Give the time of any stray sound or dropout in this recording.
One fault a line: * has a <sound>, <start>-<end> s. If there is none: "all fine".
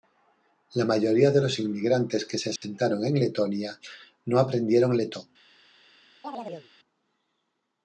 * has a dropout, 2.6-2.6 s
* has a chirp, 6.2-6.7 s